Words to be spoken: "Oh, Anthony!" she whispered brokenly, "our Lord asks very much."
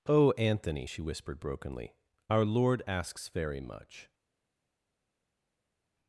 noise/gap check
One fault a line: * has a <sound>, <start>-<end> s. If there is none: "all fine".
all fine